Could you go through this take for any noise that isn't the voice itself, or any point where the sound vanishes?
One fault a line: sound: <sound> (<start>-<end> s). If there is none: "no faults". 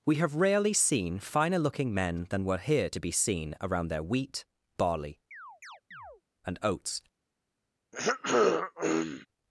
sound: chirp (5.3-6.2 s)
sound: throat clearing (7.9-9.3 s)